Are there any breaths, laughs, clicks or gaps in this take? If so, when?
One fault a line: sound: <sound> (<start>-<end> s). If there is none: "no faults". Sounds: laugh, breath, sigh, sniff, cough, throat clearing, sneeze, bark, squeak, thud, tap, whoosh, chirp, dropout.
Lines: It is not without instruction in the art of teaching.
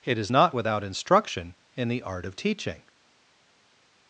no faults